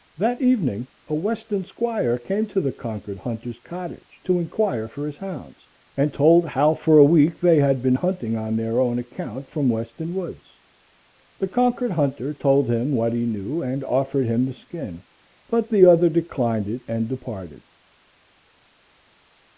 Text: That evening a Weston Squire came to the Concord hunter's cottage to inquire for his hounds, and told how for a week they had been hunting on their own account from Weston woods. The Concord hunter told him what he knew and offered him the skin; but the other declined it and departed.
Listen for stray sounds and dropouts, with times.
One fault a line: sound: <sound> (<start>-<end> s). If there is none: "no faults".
no faults